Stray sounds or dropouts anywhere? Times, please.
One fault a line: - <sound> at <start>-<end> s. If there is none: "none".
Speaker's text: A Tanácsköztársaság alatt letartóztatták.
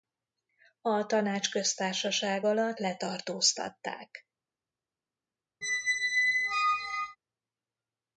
- squeak at 5.6-7.2 s